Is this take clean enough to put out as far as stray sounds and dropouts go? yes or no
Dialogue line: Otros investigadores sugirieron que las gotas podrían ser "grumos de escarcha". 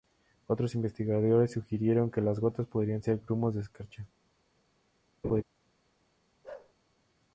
no